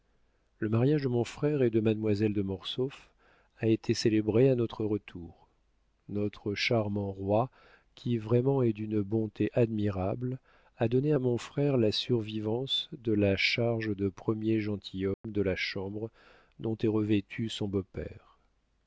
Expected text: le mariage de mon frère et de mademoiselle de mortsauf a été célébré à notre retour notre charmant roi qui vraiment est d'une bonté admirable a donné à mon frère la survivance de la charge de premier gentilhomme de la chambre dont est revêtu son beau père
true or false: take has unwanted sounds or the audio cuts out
true